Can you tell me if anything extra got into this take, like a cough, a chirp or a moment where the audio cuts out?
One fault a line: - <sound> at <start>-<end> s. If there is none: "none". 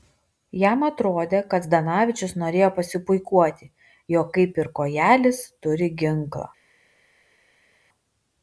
none